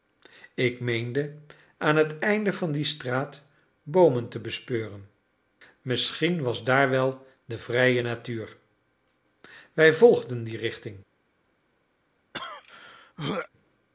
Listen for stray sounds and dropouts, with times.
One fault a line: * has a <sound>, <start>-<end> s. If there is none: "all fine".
* has a throat clearing, 12.3-13.5 s